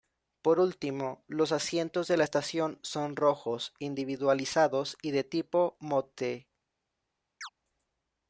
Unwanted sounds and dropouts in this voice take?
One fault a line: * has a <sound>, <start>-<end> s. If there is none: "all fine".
* has a chirp, 7.4-7.5 s